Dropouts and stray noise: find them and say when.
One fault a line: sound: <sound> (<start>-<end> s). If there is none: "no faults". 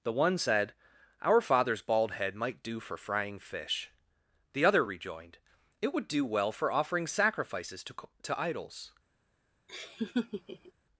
sound: laugh (9.7-10.7 s)